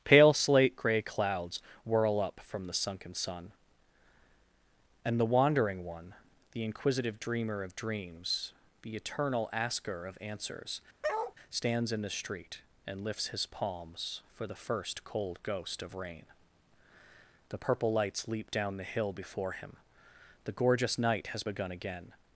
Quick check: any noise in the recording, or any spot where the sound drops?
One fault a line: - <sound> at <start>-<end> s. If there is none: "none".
- bark at 11.0-11.3 s